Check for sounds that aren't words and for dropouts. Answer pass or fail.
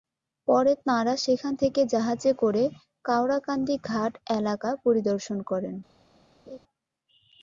fail